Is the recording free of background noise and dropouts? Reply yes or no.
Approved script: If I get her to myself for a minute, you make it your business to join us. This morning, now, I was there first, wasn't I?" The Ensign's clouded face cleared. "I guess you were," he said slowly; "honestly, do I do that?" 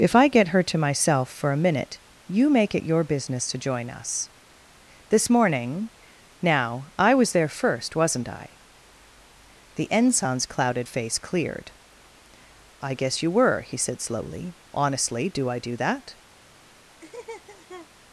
no